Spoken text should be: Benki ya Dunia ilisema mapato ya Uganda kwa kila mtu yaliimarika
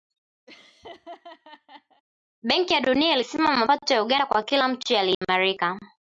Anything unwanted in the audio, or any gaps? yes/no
yes